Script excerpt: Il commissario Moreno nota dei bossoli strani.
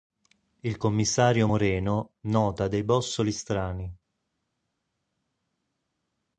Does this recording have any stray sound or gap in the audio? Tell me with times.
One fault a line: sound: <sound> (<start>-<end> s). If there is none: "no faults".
no faults